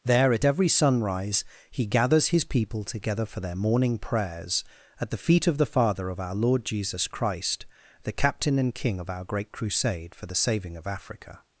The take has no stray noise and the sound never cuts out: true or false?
true